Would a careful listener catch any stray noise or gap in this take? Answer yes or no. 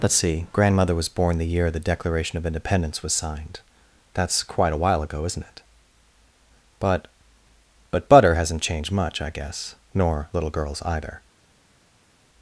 no